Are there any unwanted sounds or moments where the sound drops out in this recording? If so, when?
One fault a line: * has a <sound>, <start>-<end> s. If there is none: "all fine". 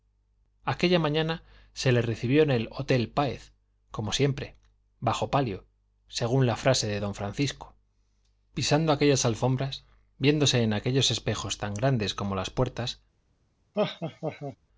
* has a laugh, 13.7-14.6 s